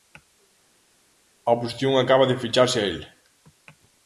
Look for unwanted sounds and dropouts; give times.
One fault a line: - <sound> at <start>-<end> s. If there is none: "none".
none